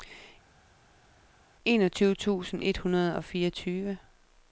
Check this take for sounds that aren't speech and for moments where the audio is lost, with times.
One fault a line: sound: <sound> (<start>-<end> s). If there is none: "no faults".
no faults